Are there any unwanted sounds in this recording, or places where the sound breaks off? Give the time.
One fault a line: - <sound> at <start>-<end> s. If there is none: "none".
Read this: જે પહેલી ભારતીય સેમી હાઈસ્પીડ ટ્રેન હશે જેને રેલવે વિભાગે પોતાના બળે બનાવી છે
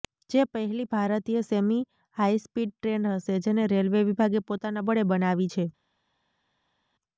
none